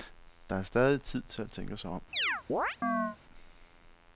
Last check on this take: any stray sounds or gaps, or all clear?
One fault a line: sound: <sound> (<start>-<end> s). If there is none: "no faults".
sound: chirp (2.1-3.2 s)